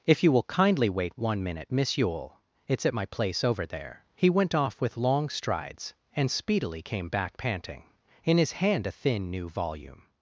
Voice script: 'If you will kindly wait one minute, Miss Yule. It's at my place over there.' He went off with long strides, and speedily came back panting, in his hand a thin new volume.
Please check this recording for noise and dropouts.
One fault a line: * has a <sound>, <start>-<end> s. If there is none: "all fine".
all fine